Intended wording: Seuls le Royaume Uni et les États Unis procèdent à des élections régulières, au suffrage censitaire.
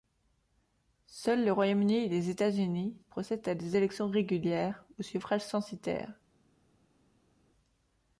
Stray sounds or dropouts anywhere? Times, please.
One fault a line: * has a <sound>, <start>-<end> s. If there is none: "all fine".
all fine